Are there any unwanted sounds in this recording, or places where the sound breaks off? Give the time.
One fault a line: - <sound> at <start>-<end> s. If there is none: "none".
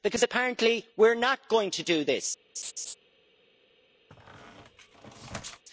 - laugh at 2.6-2.9 s
- squeak at 4.1-5.6 s